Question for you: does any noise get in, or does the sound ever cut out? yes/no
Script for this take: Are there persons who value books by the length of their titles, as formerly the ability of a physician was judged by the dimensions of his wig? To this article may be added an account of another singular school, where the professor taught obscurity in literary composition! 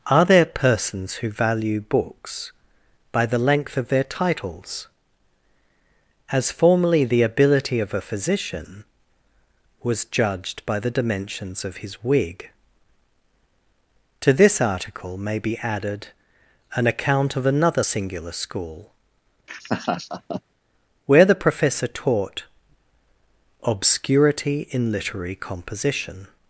yes